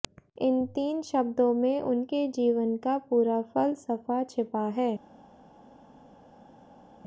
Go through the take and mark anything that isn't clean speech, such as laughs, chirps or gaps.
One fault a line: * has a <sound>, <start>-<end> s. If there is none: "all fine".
all fine